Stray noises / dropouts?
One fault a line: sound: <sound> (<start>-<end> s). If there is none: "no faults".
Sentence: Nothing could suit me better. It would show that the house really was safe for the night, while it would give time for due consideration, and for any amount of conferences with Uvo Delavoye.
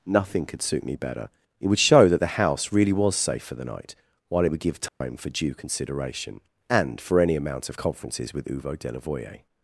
sound: dropout (4.9-5.0 s)